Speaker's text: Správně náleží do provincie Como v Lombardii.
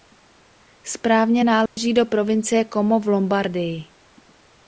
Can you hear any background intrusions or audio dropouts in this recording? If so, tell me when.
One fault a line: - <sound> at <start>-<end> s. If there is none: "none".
- dropout at 1.7-1.8 s